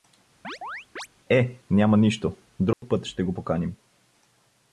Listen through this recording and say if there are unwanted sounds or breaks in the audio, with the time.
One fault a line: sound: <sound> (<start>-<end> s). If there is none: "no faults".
sound: chirp (0.4-1.1 s)
sound: dropout (2.7-2.8 s)